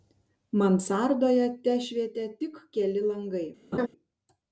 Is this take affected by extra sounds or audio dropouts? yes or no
yes